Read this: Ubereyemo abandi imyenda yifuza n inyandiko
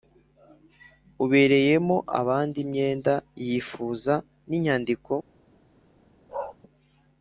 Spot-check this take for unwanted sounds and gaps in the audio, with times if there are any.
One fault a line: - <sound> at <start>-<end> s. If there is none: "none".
- bark at 6.3-6.6 s